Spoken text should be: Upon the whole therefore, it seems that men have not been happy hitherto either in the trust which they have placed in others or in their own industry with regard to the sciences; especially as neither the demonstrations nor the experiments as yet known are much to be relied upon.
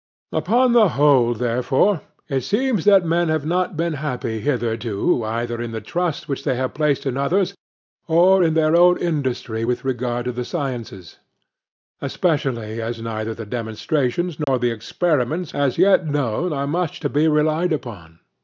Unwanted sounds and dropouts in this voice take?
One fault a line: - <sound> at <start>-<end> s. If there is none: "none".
- dropout at 14.4-14.5 s